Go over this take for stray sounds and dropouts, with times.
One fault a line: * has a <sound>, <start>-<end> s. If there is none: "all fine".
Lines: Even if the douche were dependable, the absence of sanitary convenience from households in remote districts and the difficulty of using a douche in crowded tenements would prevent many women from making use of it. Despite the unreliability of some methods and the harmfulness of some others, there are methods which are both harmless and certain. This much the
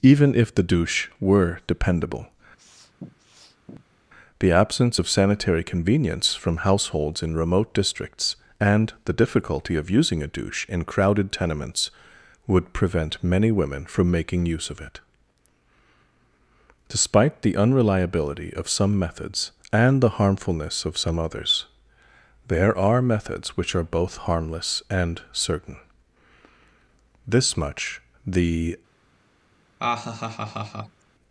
* has a sniff, 2.6-4.0 s
* has a laugh, 29.8-31.0 s